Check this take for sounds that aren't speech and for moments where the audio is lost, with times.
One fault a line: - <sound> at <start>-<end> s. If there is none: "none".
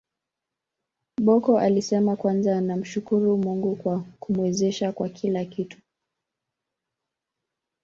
none